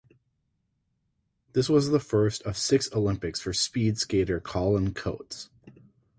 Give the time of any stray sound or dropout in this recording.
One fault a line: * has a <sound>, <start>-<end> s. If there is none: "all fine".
all fine